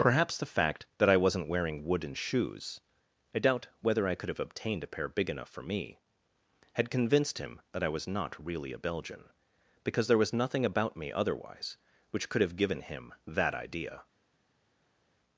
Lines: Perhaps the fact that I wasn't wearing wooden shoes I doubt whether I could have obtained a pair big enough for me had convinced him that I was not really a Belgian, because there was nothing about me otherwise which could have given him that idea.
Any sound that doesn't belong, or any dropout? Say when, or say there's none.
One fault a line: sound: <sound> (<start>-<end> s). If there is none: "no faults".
no faults